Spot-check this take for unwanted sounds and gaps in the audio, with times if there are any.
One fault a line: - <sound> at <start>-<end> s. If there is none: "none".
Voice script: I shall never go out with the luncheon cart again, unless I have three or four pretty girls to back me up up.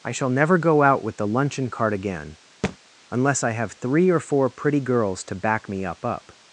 - thud at 2.6-2.8 s